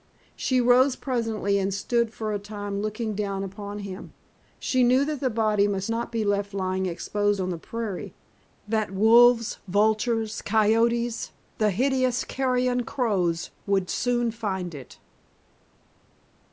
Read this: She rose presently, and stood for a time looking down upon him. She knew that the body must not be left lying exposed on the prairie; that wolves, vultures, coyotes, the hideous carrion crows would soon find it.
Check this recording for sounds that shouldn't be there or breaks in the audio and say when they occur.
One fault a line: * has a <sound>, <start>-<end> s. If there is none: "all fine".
all fine